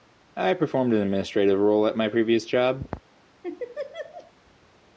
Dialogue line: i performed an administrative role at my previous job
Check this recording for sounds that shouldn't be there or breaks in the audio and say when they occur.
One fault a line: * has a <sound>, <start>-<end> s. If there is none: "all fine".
* has a laugh, 3.4-4.3 s